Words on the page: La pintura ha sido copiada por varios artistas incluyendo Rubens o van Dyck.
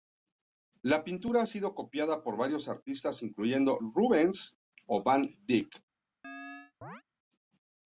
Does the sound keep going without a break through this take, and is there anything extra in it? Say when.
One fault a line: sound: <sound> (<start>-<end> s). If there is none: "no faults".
sound: chirp (6.2-7.0 s)